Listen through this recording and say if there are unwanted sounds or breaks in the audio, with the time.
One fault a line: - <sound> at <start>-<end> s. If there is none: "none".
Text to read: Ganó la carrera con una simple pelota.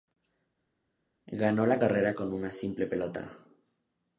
none